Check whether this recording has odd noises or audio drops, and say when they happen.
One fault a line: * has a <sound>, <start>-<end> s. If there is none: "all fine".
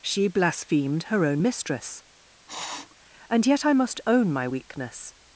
* has a sniff, 2.5-3.0 s